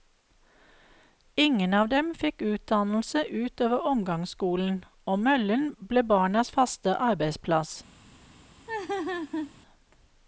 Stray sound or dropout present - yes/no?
yes